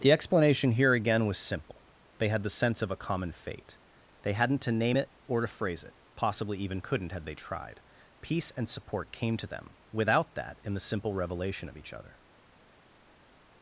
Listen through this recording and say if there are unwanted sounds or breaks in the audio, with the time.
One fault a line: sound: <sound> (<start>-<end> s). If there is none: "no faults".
no faults